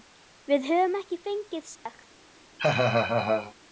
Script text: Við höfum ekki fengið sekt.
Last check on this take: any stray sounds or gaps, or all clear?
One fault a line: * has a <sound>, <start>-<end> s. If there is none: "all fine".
* has a dropout, 1.8-1.9 s
* has a laugh, 2.6-3.5 s